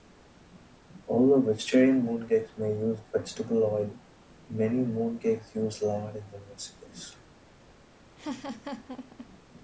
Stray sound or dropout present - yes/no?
yes